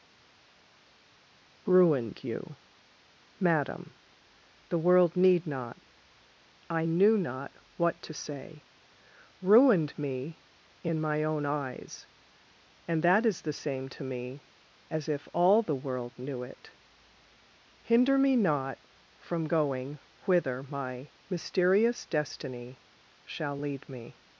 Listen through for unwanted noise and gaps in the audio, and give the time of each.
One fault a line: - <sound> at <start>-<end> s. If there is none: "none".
none